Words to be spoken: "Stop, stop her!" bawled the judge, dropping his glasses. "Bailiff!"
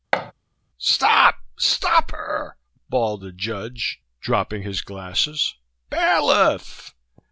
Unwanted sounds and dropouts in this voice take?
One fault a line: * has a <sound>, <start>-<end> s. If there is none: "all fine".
* has a thud, 0.1-0.3 s